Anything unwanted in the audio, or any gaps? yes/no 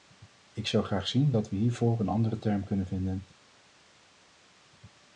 no